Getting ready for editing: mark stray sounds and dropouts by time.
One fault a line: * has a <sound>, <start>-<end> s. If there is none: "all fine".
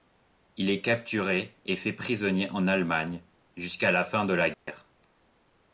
* has a dropout, 4.5-4.7 s